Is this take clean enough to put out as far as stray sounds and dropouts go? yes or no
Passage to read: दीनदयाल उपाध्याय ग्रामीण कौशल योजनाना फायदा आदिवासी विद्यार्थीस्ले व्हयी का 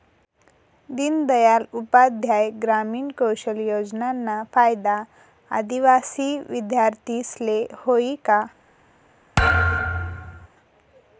no